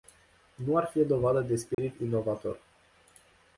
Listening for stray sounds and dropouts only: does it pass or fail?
fail